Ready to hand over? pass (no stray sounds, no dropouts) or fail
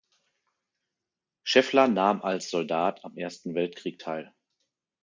pass